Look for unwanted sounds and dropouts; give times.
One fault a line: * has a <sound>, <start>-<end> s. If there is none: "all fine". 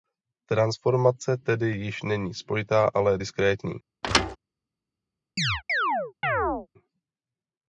* has a thud, 4.0-4.4 s
* has a chirp, 5.4-6.7 s